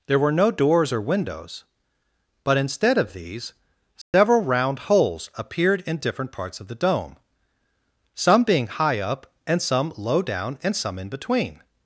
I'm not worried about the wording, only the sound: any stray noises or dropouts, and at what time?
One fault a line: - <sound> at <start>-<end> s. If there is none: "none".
- dropout at 4.0-4.1 s